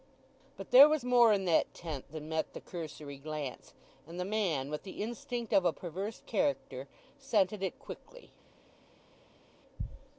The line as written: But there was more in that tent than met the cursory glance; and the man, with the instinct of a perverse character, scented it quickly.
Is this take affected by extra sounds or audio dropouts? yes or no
no